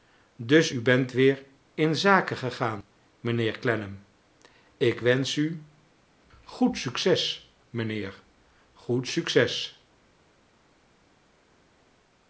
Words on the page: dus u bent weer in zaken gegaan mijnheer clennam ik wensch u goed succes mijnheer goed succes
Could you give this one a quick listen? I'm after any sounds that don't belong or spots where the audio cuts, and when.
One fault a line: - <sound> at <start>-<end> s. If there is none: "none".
none